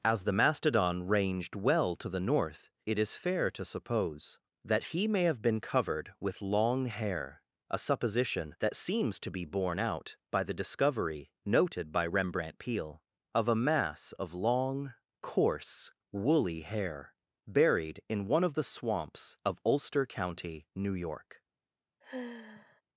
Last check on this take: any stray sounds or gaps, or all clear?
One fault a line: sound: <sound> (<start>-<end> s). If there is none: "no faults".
sound: sigh (22.0-22.8 s)